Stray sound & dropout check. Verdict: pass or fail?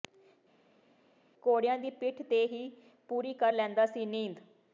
pass